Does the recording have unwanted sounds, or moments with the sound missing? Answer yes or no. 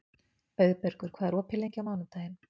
no